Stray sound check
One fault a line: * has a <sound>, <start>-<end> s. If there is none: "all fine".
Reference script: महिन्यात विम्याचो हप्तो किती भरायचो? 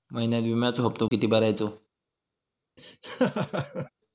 * has a dropout, 1.1-1.1 s
* has a laugh, 2.8-3.9 s